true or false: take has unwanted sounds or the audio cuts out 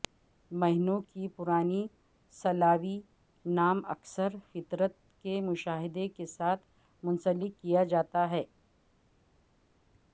false